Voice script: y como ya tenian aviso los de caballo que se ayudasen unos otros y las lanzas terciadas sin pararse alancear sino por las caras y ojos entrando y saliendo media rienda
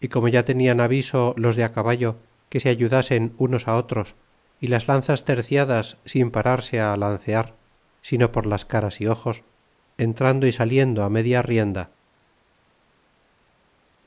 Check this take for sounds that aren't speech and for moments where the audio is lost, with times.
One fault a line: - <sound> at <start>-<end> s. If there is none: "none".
none